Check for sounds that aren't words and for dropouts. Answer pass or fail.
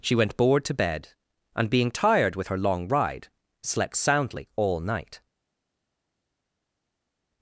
pass